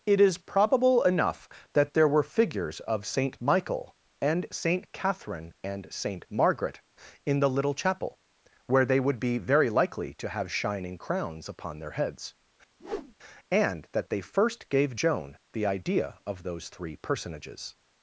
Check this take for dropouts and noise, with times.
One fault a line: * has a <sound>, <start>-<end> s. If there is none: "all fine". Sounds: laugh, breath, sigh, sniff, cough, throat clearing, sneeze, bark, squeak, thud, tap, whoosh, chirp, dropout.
* has a whoosh, 12.8-13.1 s